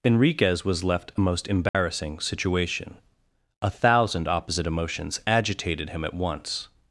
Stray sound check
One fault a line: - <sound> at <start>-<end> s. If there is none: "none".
- dropout at 1.7-1.7 s